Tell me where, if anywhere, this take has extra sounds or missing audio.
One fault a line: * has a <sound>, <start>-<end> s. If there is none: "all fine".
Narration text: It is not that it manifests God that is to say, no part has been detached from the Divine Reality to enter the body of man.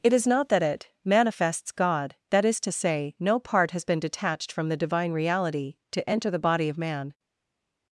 all fine